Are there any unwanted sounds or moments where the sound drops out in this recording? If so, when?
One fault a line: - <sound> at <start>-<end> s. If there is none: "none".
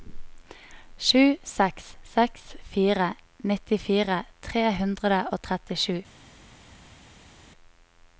none